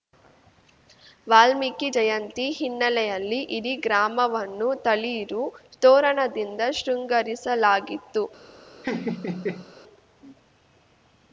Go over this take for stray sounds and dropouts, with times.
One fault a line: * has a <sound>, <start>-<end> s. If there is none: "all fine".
* has a laugh, 8.8-9.7 s